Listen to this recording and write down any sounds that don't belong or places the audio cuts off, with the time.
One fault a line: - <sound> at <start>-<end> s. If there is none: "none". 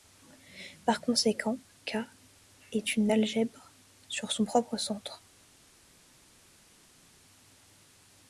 none